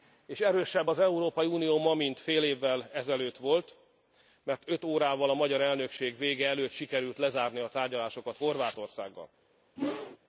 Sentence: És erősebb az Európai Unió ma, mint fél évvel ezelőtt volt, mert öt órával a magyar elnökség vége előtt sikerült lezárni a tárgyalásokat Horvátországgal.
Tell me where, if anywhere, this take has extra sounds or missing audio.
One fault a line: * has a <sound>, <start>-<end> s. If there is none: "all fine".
* has a whoosh, 9.8-10.2 s